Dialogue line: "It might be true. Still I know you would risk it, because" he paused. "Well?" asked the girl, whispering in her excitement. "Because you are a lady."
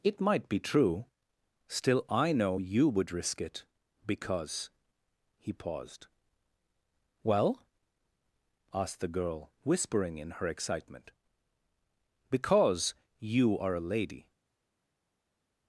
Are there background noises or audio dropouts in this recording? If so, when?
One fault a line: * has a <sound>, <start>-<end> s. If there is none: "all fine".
all fine